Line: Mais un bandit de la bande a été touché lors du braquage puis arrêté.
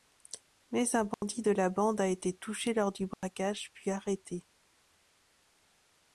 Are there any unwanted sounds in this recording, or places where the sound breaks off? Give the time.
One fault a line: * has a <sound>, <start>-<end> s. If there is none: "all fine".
* has a dropout, 1.1-1.2 s
* has a dropout, 3.1-3.2 s